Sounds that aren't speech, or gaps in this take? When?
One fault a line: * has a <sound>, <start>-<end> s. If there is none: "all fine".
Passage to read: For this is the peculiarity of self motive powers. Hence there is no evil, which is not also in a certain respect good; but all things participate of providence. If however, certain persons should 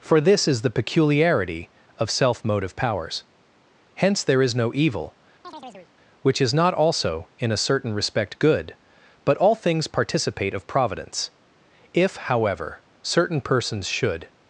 * has a chirp, 5.4-5.9 s